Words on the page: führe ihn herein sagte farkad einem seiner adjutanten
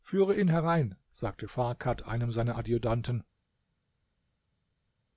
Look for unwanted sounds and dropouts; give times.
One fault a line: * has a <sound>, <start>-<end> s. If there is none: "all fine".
all fine